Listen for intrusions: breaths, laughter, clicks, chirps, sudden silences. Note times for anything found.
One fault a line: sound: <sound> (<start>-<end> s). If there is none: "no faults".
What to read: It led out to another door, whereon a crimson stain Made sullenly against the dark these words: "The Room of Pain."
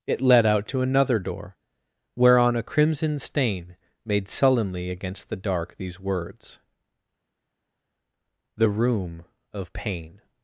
no faults